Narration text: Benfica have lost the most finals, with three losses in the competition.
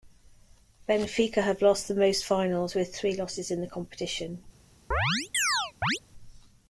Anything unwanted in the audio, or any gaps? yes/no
yes